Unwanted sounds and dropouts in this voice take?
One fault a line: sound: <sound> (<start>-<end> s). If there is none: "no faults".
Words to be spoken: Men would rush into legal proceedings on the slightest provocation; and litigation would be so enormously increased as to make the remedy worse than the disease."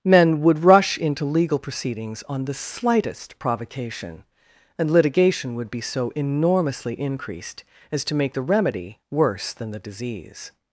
no faults